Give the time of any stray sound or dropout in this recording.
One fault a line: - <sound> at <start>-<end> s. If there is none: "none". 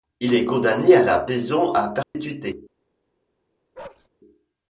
- dropout at 2.0-2.1 s
- bark at 3.7-4.1 s